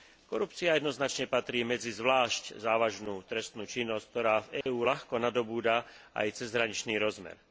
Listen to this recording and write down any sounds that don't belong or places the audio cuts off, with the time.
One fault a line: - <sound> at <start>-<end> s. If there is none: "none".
- dropout at 4.6-4.7 s